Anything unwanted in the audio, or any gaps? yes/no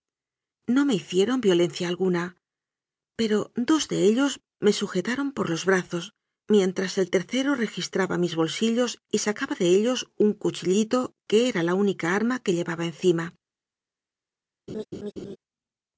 yes